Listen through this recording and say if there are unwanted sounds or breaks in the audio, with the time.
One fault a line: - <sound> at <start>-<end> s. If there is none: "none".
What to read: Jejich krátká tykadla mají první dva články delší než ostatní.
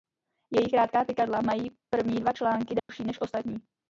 - dropout at 2.8-2.9 s